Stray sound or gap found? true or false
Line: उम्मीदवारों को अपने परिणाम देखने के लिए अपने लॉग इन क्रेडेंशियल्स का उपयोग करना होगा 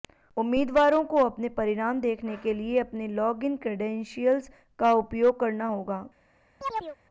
true